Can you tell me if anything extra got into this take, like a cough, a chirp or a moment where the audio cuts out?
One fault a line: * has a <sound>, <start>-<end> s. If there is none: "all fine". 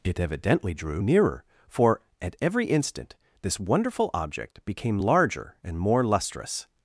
all fine